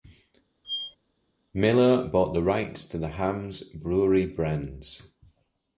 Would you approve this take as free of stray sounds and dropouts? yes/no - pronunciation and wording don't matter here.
no